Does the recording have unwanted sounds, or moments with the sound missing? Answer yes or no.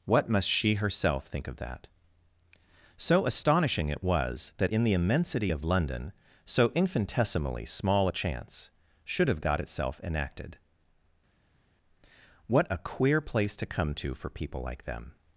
no